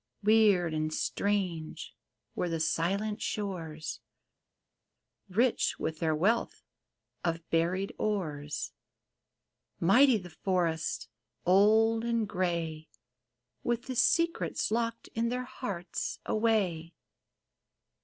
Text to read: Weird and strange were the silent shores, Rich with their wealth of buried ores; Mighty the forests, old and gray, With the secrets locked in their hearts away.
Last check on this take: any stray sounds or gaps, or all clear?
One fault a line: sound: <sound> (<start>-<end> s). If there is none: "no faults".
no faults